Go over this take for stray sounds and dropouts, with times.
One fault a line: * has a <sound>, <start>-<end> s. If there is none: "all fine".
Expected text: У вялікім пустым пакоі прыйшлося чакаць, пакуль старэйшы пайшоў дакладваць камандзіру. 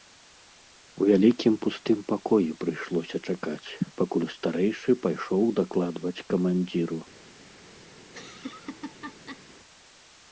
* has a laugh, 8.0-9.4 s